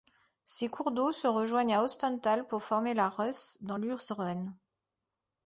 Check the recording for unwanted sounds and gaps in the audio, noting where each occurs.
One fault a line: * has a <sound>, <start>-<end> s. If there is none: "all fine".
all fine